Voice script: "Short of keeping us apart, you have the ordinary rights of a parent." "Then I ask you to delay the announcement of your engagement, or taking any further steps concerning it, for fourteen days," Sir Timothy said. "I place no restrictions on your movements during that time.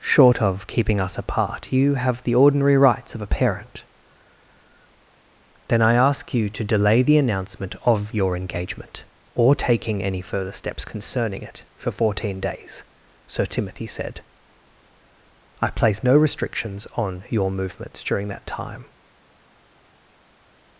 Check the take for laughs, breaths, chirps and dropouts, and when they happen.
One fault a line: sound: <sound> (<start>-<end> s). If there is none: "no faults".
no faults